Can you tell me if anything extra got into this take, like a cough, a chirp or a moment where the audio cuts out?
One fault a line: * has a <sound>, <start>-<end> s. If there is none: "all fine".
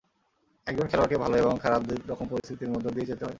* has a dropout, 2.4-2.4 s